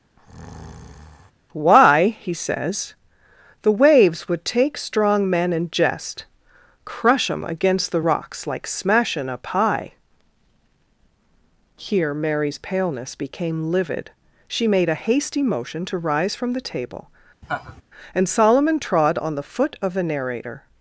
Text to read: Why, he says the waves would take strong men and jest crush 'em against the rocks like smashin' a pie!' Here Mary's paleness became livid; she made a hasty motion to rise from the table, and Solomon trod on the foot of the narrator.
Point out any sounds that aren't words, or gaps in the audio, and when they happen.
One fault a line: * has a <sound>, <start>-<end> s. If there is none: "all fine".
* has a breath, 0.2-1.3 s
* has a laugh, 17.4-17.8 s